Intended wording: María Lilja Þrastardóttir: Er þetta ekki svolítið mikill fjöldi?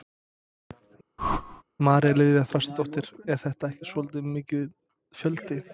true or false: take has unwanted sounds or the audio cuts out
true